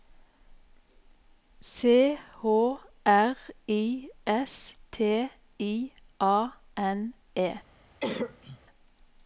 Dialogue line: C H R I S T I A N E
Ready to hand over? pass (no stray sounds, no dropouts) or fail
fail